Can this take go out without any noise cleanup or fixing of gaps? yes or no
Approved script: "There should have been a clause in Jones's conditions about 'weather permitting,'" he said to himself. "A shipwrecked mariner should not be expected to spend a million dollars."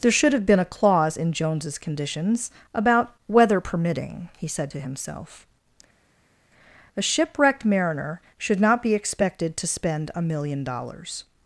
yes